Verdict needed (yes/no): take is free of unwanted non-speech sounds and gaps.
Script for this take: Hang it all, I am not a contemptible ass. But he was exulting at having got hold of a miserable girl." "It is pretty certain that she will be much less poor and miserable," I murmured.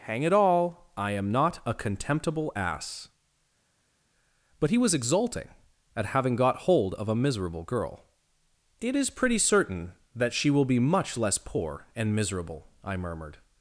yes